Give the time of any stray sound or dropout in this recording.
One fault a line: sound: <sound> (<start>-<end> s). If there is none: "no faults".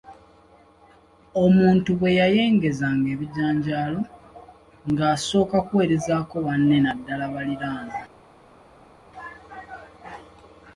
no faults